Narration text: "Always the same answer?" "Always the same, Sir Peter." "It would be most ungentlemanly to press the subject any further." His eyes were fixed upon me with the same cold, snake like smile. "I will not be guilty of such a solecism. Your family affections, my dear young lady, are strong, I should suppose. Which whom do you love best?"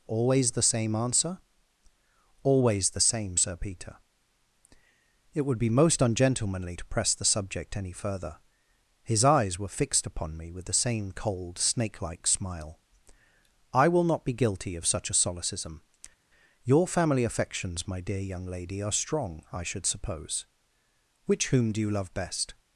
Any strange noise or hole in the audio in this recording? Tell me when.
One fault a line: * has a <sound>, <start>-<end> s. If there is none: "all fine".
all fine